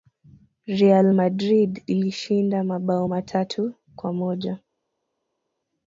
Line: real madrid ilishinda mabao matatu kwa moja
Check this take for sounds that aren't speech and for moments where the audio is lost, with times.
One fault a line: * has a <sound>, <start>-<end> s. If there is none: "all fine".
all fine